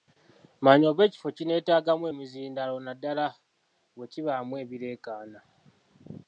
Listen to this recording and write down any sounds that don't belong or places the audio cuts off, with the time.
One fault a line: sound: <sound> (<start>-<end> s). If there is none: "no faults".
no faults